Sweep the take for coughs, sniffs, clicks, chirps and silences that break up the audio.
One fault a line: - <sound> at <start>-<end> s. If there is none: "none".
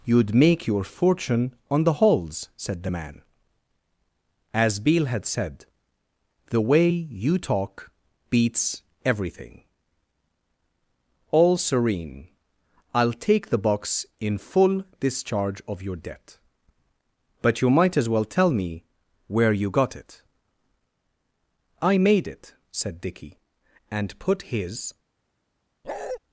- bark at 25.8-26.2 s